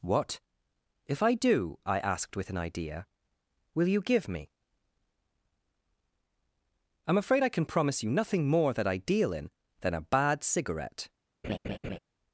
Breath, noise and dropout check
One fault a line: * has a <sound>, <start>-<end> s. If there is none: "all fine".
* has a laugh, 11.4-12.0 s